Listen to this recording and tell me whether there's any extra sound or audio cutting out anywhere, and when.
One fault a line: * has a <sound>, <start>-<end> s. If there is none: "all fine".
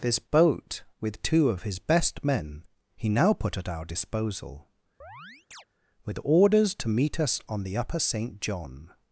* has a chirp, 5.0-5.7 s